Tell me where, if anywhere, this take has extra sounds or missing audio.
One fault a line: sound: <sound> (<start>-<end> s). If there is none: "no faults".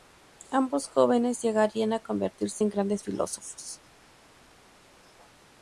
no faults